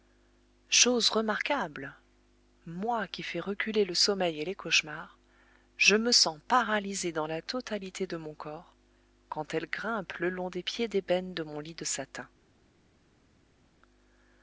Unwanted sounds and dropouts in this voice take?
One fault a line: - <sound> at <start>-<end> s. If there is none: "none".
none